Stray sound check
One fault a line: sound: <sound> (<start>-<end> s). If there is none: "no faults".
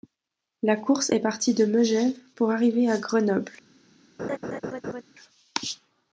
sound: laugh (4.2-5.0 s)